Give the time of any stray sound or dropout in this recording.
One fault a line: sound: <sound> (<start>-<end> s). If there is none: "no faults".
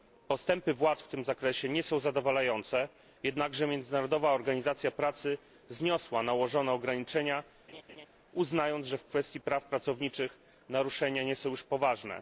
sound: laugh (7.7-8.1 s)